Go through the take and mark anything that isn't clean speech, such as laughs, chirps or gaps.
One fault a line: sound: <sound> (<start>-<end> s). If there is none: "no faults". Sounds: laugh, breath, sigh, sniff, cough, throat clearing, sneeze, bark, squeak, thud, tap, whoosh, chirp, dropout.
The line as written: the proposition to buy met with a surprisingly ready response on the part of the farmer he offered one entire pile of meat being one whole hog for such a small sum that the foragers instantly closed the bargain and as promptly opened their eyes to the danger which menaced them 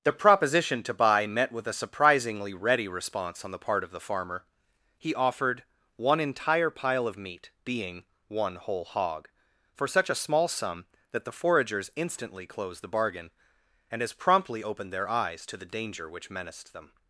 no faults